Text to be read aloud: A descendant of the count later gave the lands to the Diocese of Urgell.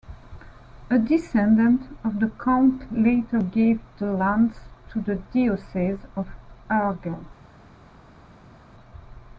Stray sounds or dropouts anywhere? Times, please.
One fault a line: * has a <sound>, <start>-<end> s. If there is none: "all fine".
all fine